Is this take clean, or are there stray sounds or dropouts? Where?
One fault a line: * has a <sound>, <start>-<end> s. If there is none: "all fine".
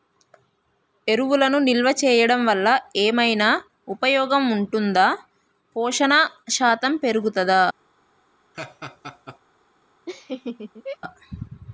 * has a laugh, 8.5-9.4 s
* has a laugh, 10.1-11.0 s